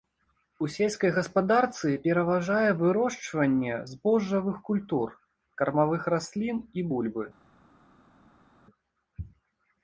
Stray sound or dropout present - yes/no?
no